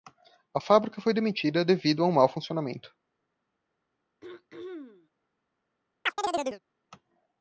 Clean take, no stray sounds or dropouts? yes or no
no